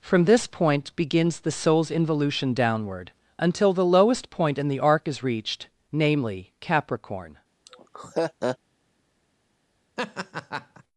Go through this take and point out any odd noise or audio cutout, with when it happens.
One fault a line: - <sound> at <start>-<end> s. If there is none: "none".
- laugh at 7.7-8.6 s
- laugh at 10.0-10.8 s